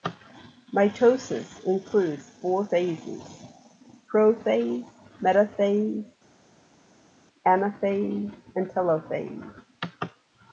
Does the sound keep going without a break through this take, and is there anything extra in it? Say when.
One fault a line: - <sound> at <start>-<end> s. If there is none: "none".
none